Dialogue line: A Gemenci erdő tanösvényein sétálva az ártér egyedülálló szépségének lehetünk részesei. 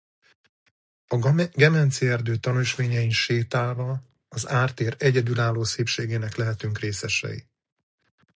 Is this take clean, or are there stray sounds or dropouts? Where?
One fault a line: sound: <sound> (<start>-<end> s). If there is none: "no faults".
no faults